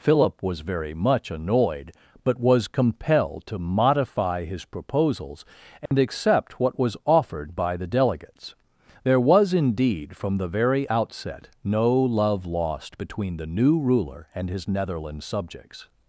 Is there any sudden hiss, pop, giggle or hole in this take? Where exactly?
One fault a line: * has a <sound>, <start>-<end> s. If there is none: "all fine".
* has a dropout, 5.9-5.9 s